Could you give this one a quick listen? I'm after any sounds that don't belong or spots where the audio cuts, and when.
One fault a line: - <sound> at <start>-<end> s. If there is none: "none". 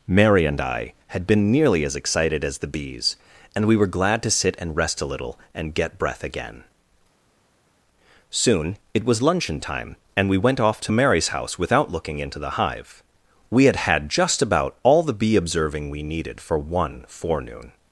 none